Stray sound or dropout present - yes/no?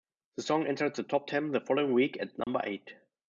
yes